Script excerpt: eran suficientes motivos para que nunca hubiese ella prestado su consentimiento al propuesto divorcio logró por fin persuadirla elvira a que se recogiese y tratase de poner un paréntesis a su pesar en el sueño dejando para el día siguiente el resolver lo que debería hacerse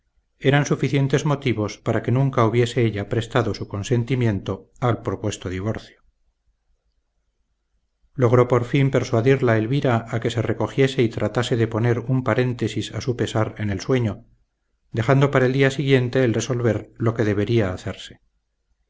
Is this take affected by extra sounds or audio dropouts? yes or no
no